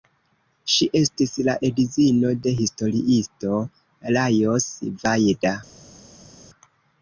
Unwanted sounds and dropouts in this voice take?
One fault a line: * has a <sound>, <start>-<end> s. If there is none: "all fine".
all fine